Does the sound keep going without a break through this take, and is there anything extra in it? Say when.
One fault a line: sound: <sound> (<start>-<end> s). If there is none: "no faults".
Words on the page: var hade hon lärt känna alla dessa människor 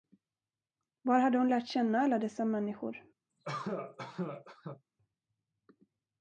sound: cough (3.3-4.8 s)